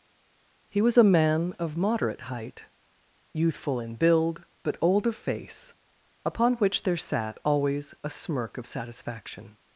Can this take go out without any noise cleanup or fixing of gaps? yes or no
yes